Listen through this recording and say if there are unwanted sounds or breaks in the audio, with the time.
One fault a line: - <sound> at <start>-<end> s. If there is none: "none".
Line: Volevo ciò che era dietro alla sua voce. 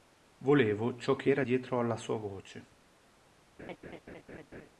- laugh at 3.6-4.7 s